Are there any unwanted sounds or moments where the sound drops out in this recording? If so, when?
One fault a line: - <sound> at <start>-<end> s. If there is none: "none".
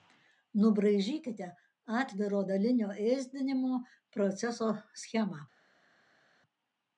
none